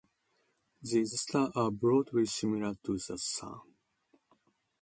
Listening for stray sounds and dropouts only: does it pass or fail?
pass